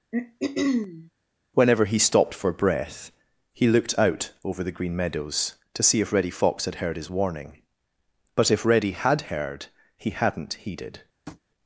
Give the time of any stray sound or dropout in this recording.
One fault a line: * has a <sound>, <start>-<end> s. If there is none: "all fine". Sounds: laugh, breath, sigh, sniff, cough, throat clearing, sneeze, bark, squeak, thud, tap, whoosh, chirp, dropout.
* has a throat clearing, 0.1-1.1 s
* has a tap, 11.3-11.4 s